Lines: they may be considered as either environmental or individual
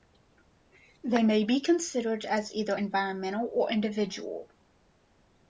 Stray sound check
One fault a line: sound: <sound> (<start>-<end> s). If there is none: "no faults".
no faults